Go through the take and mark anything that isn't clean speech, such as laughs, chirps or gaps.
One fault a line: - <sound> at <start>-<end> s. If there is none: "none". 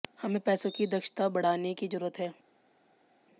none